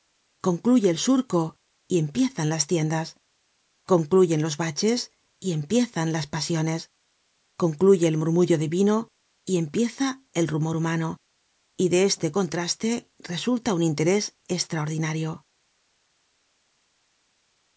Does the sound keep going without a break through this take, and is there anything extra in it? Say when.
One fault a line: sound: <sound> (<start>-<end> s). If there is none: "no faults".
no faults